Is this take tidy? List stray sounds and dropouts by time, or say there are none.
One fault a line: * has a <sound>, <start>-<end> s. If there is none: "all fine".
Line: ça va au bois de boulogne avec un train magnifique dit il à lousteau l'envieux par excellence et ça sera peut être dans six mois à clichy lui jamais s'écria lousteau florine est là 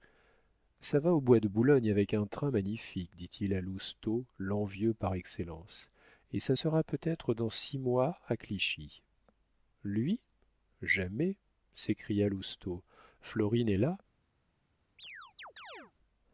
* has a chirp, 15.0-15.9 s